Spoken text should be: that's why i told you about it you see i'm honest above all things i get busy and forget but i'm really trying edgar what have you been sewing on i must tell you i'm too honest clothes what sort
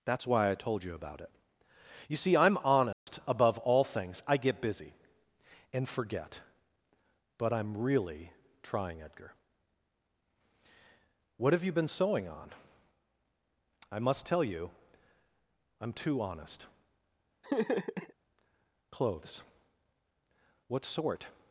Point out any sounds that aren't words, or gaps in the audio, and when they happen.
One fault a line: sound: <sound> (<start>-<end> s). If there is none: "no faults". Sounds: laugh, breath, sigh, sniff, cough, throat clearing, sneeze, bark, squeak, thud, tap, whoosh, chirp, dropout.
sound: dropout (2.9-3.1 s)
sound: laugh (17.4-18.1 s)